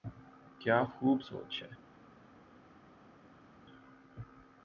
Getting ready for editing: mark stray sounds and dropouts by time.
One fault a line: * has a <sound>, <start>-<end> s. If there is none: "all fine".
all fine